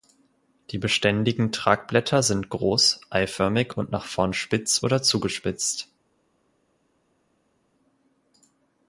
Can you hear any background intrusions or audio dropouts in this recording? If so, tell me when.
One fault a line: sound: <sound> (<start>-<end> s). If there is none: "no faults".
no faults